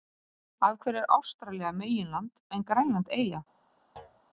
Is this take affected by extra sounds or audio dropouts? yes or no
yes